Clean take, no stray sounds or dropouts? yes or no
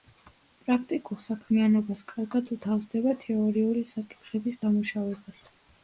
yes